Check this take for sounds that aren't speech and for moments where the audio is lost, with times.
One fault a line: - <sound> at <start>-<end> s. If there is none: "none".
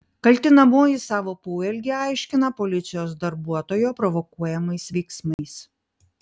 - dropout at 5.3-5.4 s